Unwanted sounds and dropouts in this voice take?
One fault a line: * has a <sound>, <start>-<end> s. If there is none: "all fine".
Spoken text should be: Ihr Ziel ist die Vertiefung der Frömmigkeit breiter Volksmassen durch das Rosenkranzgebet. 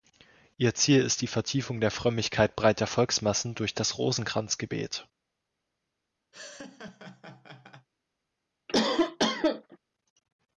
* has a laugh, 6.3-7.9 s
* has a cough, 8.7-9.8 s